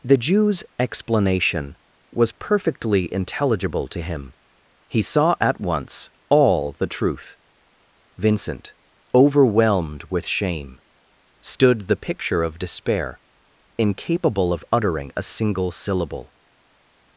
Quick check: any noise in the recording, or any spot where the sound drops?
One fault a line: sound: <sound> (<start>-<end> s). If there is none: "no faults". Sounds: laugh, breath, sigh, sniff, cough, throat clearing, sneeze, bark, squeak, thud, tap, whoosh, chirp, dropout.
no faults